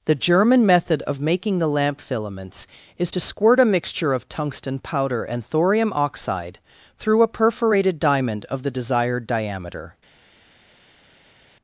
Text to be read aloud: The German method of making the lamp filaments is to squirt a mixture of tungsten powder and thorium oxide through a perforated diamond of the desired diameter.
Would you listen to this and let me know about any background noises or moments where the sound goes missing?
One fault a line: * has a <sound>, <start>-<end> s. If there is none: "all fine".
all fine